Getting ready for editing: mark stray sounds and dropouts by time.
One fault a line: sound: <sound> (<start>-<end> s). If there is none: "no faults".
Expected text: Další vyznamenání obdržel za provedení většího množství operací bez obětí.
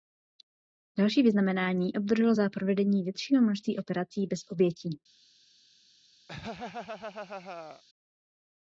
sound: laugh (6.3-7.8 s)